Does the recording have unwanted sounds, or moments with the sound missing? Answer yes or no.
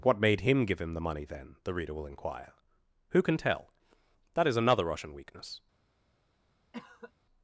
yes